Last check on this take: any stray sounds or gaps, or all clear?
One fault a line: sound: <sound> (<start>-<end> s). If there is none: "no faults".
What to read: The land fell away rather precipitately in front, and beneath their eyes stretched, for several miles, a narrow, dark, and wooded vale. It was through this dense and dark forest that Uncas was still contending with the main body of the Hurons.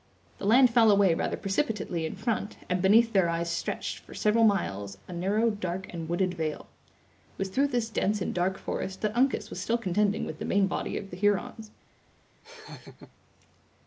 sound: laugh (12.4-13.1 s)